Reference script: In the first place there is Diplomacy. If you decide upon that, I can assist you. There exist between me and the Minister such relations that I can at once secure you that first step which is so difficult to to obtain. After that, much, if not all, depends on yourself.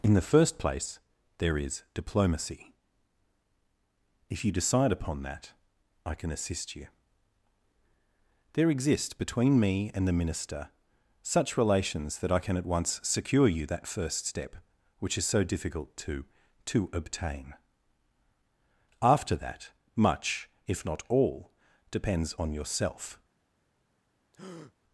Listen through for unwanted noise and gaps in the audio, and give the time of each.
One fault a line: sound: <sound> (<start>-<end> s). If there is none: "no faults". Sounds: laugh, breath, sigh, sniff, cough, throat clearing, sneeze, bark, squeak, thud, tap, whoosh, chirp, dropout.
sound: breath (24.3-24.7 s)